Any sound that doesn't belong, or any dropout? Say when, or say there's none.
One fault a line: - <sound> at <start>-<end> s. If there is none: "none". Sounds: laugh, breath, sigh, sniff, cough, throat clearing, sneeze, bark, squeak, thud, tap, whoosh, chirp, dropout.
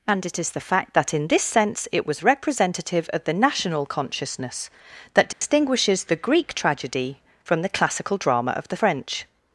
- dropout at 5.3-5.4 s